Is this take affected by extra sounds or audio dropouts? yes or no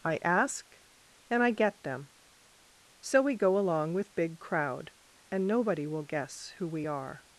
no